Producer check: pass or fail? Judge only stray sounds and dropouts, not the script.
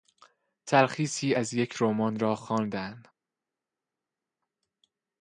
pass